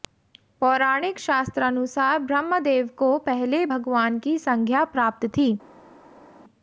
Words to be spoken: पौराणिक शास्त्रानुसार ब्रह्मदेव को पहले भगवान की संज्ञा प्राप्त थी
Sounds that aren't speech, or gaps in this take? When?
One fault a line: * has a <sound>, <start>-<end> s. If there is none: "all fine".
all fine